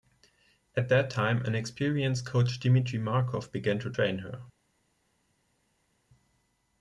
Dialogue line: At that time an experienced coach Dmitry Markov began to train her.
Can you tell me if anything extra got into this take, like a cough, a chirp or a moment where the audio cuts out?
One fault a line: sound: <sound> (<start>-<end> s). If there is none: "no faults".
no faults